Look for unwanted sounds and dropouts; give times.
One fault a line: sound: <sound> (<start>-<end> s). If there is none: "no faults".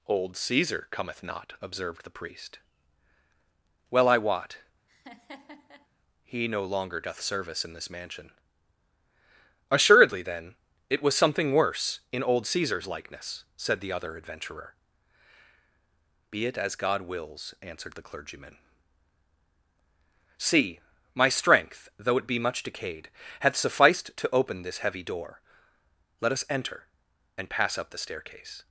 sound: laugh (4.9-5.9 s)